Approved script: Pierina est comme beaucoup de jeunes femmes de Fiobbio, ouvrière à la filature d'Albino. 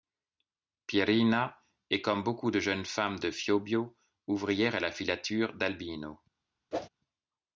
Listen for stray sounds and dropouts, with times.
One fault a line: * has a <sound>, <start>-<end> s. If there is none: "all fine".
* has a whoosh, 6.7-6.9 s